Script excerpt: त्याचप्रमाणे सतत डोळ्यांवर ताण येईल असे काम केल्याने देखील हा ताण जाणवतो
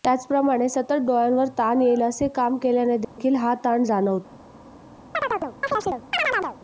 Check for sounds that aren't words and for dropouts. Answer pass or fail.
fail